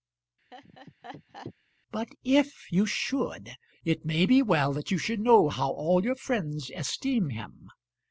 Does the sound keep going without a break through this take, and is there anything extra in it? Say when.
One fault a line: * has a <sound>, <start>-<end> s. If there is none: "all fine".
* has a laugh, 0.5-1.5 s